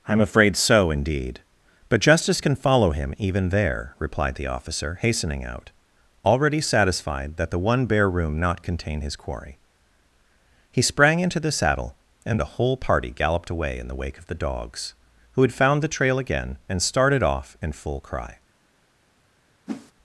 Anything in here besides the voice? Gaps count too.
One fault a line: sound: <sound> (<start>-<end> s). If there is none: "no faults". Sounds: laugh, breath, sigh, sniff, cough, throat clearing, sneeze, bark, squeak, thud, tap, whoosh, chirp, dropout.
sound: whoosh (19.7-19.9 s)